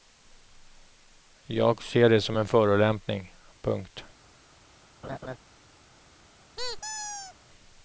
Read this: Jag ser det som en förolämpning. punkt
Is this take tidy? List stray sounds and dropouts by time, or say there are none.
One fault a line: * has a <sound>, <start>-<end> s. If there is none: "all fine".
* has a laugh, 5.0-5.4 s
* has a squeak, 6.6-7.3 s